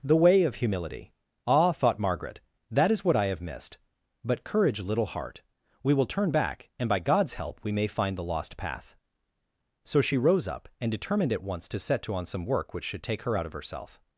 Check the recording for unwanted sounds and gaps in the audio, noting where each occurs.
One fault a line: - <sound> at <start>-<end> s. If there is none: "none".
none